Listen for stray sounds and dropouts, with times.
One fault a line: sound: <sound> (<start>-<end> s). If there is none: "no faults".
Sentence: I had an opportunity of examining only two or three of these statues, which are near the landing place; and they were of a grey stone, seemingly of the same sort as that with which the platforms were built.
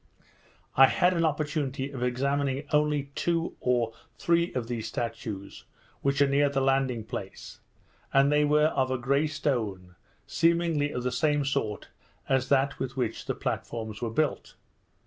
no faults